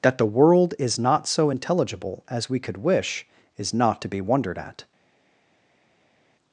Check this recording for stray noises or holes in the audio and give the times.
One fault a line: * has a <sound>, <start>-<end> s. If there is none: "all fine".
all fine